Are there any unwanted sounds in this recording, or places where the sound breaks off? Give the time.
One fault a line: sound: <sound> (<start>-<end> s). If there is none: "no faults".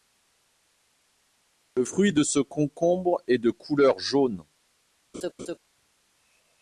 sound: laugh (5.1-5.6 s)